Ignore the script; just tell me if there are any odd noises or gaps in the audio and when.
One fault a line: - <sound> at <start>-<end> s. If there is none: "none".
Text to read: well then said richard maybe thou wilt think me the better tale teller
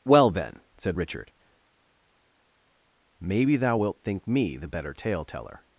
none